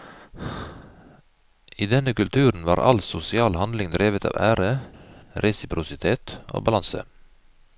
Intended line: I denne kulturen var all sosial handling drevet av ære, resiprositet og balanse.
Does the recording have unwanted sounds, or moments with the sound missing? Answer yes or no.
no